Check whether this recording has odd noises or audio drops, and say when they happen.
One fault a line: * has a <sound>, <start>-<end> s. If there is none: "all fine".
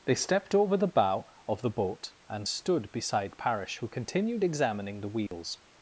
* has a dropout, 5.3-5.3 s